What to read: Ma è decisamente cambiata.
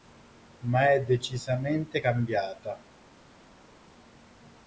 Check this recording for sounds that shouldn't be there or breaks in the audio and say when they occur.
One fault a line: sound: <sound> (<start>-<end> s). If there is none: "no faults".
no faults